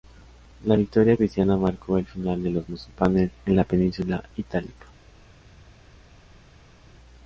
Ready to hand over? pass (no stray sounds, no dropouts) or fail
pass